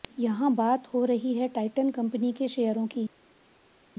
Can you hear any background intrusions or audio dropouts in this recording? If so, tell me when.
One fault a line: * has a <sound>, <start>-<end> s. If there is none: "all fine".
all fine